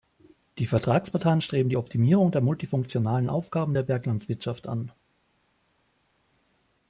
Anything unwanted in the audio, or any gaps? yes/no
no